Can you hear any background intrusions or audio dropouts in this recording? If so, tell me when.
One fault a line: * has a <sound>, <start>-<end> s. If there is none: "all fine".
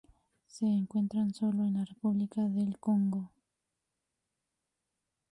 all fine